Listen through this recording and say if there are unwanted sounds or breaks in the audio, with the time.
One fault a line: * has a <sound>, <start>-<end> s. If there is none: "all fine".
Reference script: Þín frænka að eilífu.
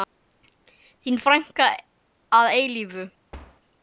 * has a thud, 3.3-3.6 s